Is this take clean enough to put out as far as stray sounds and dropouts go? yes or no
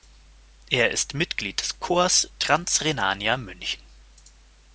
yes